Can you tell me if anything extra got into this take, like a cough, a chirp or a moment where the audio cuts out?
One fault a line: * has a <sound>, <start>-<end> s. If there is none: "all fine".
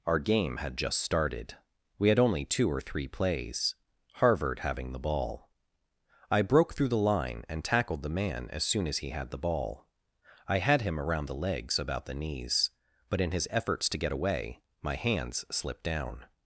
all fine